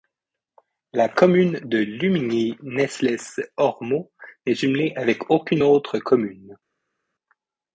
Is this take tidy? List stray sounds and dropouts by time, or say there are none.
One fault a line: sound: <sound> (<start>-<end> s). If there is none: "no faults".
no faults